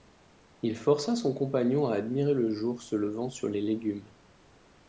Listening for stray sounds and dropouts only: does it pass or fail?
pass